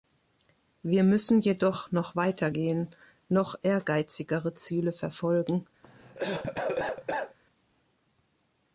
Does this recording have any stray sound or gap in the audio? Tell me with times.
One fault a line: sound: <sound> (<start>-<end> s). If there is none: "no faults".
sound: cough (5.8-7.4 s)